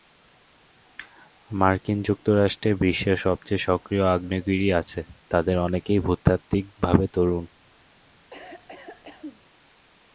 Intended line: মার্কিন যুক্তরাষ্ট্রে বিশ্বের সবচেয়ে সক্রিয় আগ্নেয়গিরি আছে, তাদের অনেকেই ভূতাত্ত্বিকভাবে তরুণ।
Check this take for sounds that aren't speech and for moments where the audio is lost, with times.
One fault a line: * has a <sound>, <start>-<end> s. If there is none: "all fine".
* has a cough, 8.3-9.4 s